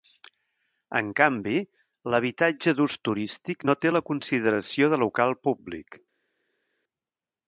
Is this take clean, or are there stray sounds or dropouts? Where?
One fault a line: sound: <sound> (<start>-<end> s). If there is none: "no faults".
no faults